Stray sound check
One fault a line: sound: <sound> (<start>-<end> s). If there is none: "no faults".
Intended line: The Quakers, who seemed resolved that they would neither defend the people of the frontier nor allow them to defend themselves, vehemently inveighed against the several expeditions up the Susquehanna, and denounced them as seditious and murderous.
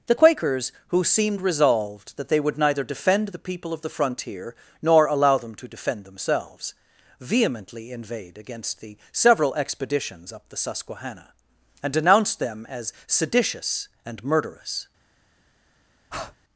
sound: breath (16.1-16.4 s)